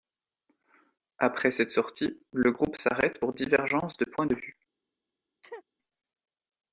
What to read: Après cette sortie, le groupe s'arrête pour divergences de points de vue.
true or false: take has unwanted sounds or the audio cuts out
true